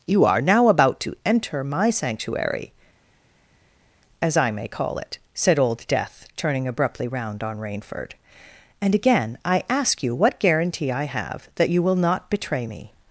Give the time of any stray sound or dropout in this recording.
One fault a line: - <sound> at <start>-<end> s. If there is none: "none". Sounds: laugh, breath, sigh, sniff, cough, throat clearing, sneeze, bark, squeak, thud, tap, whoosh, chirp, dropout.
none